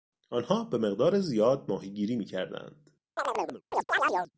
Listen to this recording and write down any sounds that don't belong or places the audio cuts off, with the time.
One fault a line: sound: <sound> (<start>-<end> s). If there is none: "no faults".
sound: chirp (3.2-4.3 s)